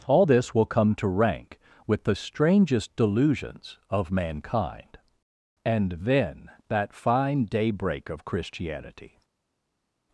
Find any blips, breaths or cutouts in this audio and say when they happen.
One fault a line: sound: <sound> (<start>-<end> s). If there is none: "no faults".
no faults